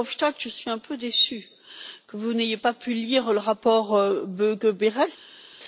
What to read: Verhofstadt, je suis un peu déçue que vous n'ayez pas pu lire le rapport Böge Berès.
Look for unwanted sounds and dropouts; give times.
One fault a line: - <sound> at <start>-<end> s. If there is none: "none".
none